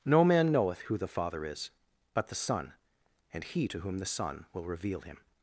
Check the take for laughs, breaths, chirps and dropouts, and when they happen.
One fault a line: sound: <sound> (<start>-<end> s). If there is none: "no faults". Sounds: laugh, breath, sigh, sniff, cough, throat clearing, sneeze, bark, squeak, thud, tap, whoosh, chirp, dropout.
no faults